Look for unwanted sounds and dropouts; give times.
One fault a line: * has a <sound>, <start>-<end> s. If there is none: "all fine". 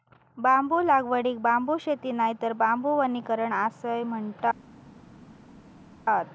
all fine